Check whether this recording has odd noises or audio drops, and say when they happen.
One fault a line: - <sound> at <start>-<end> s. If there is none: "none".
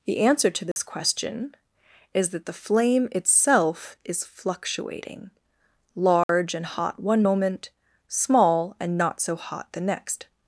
- dropout at 0.7-0.8 s
- dropout at 6.2-6.3 s